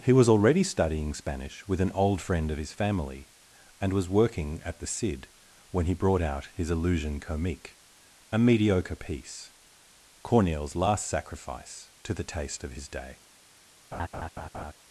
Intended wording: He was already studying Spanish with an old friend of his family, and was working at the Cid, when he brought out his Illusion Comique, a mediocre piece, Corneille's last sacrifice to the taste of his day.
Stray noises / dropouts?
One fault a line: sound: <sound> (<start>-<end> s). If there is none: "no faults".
sound: laugh (13.9-14.7 s)